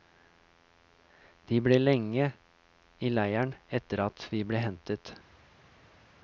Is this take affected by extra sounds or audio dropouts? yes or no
no